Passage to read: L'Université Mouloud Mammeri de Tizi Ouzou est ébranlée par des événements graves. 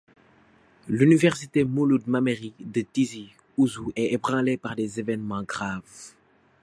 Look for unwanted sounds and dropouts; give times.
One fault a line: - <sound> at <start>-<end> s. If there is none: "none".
none